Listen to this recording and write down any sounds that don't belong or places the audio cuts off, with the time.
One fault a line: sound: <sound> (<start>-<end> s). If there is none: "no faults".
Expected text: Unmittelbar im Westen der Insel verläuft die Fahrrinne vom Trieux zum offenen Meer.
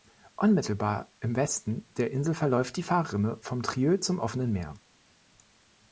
no faults